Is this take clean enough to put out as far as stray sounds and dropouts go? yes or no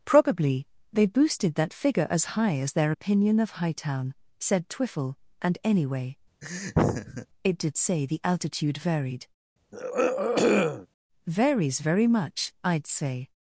no